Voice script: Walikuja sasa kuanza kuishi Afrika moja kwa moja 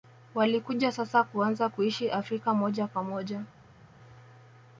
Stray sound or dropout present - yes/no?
no